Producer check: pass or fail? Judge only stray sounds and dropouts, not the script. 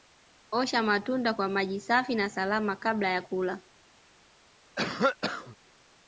fail